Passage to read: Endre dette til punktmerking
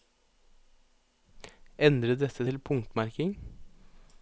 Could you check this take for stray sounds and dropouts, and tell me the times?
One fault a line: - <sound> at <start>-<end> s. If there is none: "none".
none